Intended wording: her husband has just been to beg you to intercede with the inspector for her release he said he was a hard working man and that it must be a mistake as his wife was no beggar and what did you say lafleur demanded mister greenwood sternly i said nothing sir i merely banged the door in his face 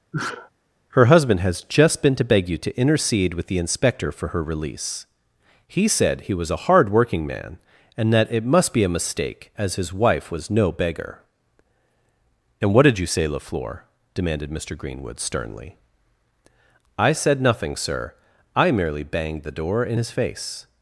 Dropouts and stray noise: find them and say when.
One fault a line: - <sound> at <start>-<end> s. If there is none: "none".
- sneeze at 0.1-0.5 s